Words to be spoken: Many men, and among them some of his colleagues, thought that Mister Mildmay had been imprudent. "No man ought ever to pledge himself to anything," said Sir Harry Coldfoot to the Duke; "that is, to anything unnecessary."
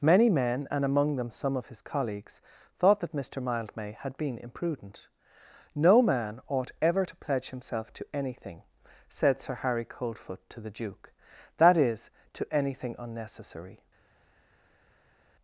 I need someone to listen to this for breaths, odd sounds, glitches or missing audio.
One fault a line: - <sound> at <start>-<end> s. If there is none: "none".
none